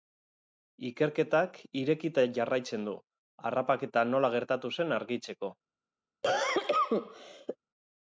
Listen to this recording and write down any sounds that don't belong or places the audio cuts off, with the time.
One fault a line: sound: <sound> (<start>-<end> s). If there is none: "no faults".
sound: cough (6.2-7.6 s)